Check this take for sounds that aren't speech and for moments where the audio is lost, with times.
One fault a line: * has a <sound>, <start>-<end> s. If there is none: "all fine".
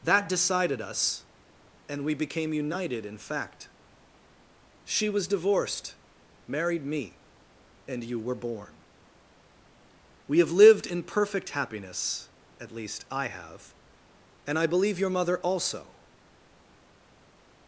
all fine